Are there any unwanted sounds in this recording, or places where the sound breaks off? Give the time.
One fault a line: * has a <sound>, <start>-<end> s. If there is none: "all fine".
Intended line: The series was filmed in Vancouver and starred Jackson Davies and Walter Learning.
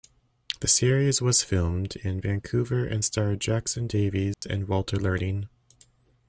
* has a dropout, 4.3-4.4 s